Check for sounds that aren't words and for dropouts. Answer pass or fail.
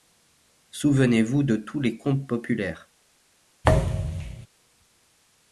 fail